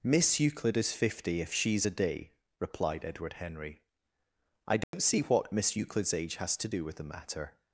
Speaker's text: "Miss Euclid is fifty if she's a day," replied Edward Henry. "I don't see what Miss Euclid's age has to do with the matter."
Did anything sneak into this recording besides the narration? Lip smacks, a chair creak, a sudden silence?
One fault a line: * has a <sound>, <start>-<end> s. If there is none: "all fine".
* has a dropout, 4.8-4.9 s